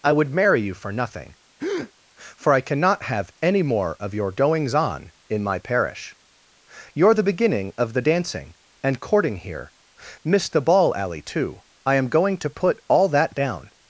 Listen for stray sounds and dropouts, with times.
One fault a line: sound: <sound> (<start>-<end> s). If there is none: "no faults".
sound: breath (1.6-1.9 s)